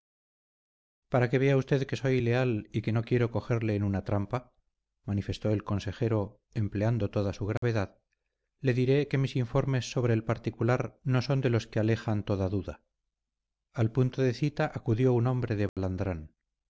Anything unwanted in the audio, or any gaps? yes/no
yes